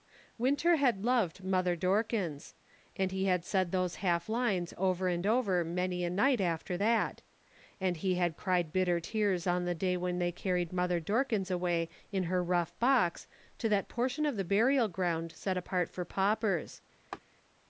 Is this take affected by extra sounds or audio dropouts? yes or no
yes